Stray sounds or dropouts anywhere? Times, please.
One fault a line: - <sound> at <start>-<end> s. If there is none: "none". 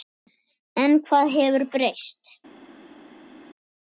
none